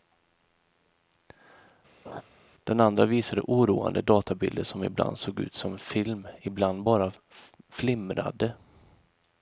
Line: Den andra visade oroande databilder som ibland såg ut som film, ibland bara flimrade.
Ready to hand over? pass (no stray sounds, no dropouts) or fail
fail